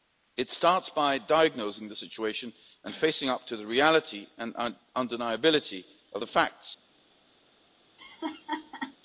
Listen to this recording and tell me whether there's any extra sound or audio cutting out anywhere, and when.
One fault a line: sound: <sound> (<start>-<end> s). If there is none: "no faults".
sound: laugh (8.0-9.0 s)